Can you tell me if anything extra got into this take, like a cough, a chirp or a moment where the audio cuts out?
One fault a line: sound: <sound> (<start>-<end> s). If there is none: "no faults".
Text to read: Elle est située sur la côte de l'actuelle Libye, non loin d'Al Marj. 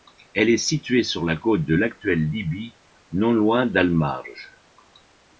no faults